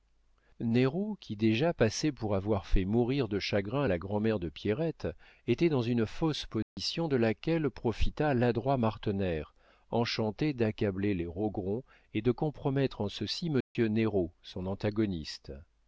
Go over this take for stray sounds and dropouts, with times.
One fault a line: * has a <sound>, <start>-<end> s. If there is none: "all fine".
* has a dropout, 6.6-6.8 s
* has a dropout, 13.6-13.8 s